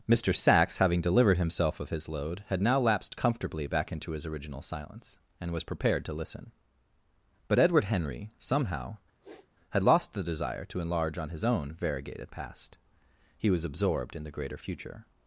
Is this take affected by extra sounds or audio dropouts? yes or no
yes